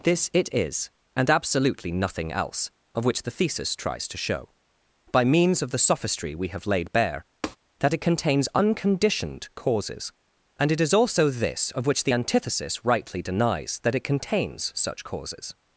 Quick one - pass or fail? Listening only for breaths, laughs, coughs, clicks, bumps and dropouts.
fail